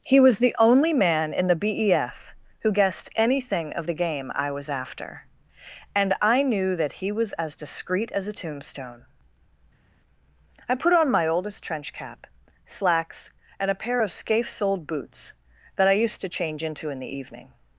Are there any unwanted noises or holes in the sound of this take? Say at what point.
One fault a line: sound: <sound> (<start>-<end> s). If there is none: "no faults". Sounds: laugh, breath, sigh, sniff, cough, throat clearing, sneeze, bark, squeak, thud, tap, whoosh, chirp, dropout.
no faults